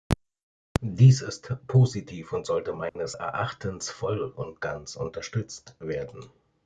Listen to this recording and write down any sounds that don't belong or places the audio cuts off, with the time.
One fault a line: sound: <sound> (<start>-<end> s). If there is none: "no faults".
sound: dropout (2.9-3.0 s)